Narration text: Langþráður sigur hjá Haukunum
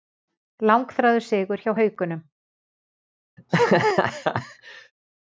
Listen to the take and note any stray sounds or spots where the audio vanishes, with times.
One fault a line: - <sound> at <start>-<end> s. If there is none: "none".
- laugh at 3.4-4.9 s